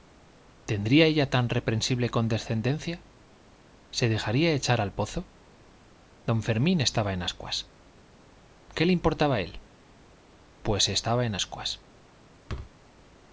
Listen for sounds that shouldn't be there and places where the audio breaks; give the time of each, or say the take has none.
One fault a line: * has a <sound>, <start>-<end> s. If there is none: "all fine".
* has a thud, 12.5-12.8 s